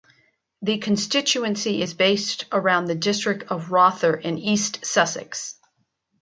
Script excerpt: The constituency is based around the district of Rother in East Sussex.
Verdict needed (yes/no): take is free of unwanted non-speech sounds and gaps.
yes